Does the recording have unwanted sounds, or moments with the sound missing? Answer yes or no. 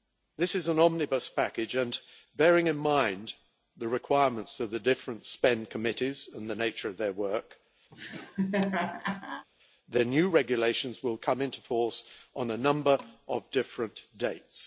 yes